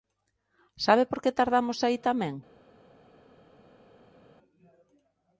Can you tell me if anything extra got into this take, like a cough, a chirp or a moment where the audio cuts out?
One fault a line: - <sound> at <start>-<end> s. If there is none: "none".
none